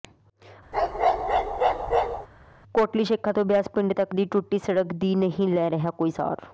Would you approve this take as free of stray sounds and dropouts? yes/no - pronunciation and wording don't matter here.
no